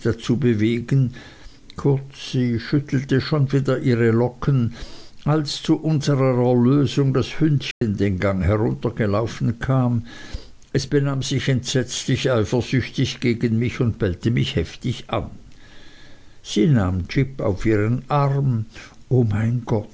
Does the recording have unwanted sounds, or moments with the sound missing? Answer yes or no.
yes